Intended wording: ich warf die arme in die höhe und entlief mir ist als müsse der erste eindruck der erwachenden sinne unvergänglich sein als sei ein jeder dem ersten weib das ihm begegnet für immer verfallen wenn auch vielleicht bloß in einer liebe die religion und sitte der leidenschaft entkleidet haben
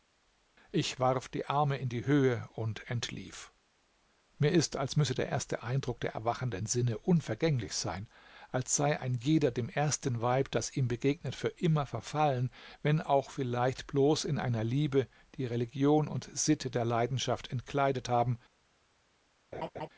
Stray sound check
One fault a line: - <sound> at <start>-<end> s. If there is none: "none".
- laugh at 19.5-19.9 s